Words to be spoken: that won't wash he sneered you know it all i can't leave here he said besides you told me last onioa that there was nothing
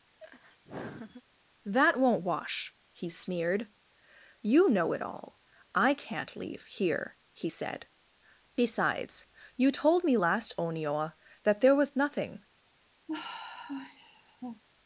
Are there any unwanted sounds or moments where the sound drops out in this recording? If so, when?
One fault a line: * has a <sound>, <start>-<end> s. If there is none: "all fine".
* has a laugh, 0.2-1.2 s
* has a sigh, 13.1-14.6 s